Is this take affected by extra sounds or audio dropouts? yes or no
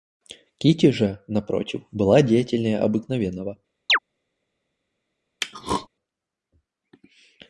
yes